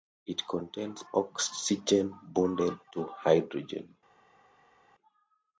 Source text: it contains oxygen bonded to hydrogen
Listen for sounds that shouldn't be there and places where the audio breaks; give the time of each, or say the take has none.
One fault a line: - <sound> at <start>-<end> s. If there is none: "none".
none